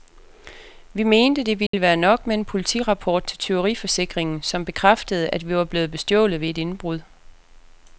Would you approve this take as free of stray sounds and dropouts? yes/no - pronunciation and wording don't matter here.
no